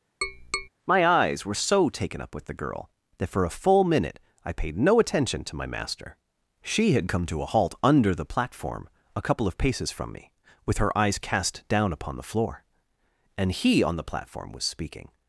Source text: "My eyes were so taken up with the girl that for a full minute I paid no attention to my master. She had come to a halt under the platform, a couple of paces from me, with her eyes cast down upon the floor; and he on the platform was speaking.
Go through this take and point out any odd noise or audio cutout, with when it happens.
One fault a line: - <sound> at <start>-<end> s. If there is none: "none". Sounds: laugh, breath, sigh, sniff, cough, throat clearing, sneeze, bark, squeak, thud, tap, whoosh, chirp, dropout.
- tap at 0.2-0.7 s